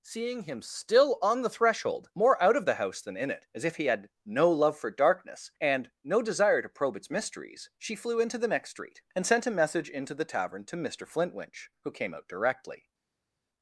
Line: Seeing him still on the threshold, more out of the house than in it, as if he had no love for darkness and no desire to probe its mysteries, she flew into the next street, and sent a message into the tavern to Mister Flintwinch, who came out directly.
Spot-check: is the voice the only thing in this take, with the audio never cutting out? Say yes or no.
yes